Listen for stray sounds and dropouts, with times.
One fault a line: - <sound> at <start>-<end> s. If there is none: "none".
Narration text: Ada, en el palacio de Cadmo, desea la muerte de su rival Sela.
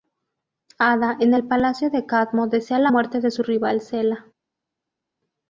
none